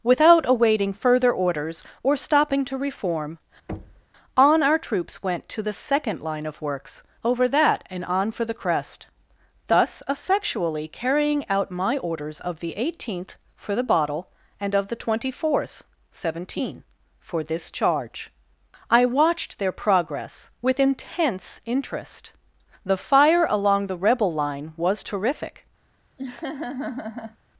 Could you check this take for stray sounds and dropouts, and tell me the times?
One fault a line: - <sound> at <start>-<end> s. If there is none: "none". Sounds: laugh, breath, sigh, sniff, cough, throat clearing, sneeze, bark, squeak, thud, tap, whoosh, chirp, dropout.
- thud at 3.7-4.1 s
- laugh at 26.2-27.4 s